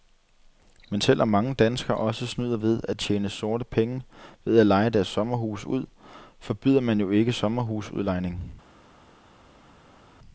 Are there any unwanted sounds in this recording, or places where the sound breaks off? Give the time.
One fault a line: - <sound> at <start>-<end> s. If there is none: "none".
none